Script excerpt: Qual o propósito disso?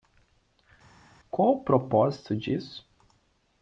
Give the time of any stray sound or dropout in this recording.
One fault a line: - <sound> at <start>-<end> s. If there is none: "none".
none